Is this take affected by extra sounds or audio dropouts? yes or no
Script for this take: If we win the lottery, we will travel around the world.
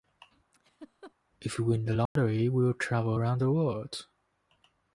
yes